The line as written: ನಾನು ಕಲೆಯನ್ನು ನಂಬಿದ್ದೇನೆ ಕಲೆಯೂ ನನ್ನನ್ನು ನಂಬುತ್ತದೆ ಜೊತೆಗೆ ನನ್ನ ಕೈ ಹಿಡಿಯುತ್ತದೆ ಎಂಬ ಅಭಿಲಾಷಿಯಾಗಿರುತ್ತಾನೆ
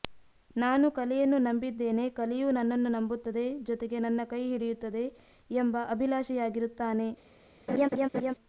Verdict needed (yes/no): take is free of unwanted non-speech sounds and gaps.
no